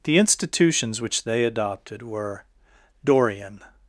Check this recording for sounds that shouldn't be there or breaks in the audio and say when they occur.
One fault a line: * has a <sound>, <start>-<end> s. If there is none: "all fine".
all fine